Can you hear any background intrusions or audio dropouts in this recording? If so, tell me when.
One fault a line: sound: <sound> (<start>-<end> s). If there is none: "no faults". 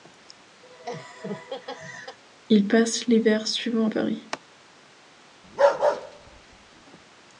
sound: laugh (0.6-2.2 s)
sound: bark (5.4-6.8 s)